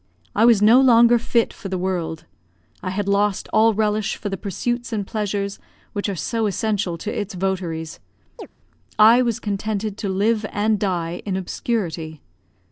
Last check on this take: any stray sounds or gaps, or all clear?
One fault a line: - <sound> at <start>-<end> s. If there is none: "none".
- chirp at 8.4-8.5 s